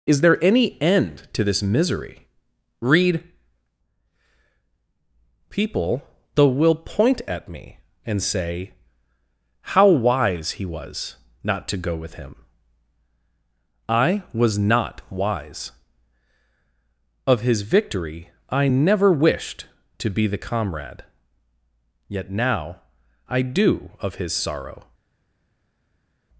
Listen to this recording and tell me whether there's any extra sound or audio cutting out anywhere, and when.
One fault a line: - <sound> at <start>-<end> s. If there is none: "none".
none